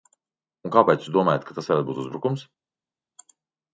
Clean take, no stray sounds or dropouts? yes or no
yes